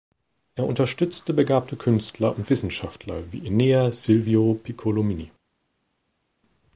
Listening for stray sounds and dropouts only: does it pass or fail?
pass